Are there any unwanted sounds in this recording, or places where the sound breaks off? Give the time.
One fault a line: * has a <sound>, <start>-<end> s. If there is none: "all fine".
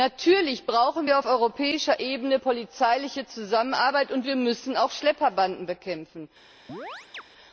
* has a chirp, 6.7-7.2 s